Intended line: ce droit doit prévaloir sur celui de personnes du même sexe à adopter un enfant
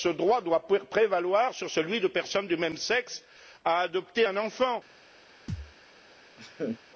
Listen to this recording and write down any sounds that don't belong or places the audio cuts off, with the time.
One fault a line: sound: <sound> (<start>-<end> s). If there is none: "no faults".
sound: thud (5.5-5.7 s)
sound: laugh (6.4-6.8 s)